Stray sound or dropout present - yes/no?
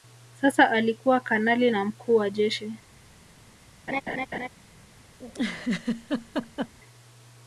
yes